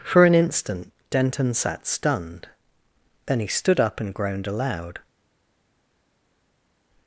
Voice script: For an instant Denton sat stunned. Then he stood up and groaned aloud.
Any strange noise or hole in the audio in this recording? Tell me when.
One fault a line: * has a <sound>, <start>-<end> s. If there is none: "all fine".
all fine